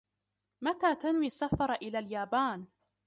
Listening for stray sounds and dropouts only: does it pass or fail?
pass